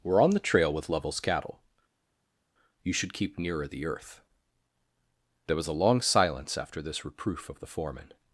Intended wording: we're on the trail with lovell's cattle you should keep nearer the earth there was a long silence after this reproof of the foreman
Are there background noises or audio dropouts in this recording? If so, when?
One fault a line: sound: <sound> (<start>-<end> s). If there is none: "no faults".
no faults